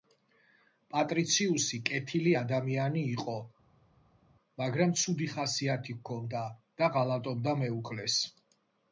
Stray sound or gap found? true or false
false